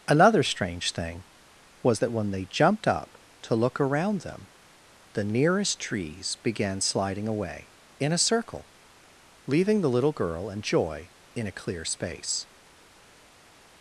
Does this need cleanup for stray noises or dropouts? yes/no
no